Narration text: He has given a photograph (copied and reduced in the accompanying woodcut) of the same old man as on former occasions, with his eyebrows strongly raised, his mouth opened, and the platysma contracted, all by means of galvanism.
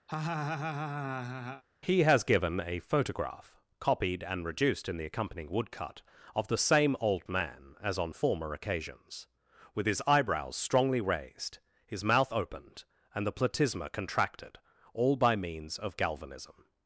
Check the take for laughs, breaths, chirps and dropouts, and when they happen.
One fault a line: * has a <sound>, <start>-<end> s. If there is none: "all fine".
* has a laugh, 0.1-1.6 s